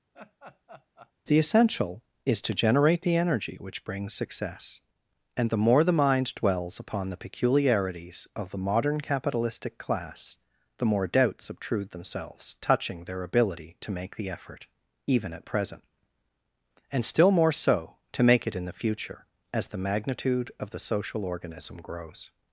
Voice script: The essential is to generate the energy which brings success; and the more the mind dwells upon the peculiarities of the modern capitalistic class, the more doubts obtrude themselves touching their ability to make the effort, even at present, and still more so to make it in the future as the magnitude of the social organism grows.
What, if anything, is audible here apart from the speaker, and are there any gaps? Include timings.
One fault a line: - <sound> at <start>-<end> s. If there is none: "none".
- laugh at 0.1-1.1 s